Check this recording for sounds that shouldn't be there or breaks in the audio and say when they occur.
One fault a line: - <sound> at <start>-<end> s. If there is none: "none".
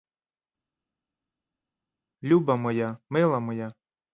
none